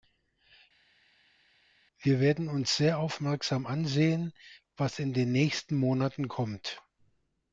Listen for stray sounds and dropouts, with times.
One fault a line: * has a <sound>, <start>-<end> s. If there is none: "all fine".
all fine